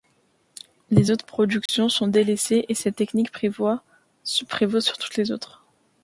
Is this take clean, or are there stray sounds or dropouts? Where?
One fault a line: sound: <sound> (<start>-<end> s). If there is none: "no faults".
sound: dropout (1.7-1.7 s)